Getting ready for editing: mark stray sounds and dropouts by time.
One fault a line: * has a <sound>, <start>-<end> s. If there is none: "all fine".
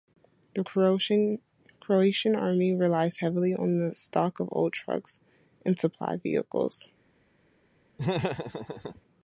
* has a laugh, 8.0-9.0 s